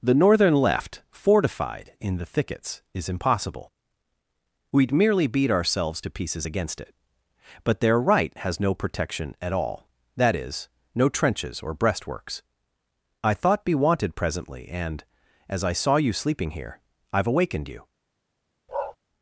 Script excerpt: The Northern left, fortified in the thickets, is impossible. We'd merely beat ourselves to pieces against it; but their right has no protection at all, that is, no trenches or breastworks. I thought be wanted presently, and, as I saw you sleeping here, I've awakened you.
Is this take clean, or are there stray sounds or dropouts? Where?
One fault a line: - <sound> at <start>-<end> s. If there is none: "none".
- bark at 18.7-19.0 s